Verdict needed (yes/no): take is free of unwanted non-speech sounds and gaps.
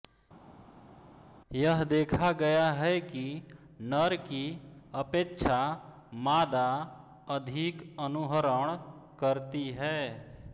yes